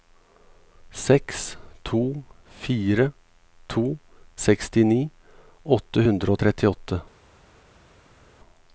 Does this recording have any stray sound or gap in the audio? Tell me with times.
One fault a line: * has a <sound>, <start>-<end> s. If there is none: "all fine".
all fine